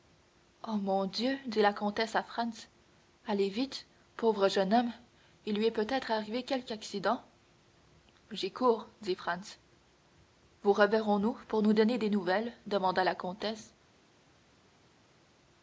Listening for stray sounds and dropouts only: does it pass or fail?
pass